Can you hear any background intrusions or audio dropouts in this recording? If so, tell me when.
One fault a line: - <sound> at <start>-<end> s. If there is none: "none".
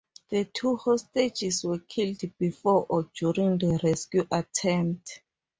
none